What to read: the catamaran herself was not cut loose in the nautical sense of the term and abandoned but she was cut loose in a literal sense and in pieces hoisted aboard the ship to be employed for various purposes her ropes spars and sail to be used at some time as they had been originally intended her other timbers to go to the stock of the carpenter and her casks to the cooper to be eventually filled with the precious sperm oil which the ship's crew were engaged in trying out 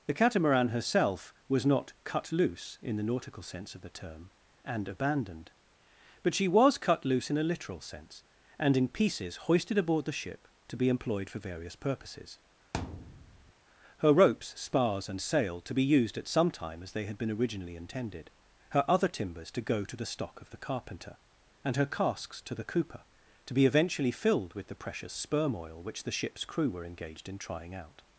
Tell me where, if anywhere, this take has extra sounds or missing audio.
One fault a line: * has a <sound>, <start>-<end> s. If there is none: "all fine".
* has a thud, 12.7-13.5 s